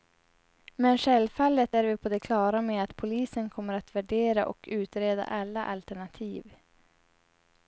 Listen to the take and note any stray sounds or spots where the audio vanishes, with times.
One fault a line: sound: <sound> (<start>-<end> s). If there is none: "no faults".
no faults